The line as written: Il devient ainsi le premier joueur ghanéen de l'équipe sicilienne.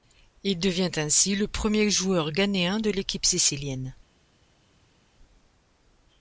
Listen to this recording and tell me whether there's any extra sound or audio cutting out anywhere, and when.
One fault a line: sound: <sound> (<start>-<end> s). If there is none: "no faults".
no faults